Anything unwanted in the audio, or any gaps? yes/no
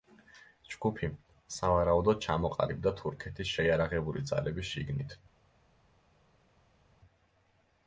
no